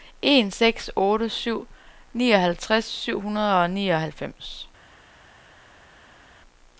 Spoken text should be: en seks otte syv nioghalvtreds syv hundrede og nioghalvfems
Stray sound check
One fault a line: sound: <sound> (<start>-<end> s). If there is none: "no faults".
no faults